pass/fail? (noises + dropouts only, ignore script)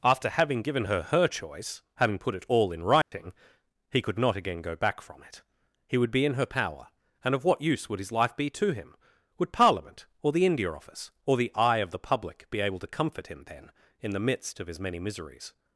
fail